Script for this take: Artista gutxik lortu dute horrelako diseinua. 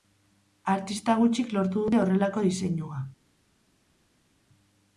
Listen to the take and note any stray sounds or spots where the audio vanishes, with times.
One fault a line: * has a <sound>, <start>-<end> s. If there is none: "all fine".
all fine